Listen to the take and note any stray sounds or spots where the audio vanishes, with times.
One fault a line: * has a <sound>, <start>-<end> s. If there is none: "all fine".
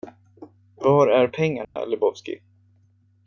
* has a dropout, 1.6-1.8 s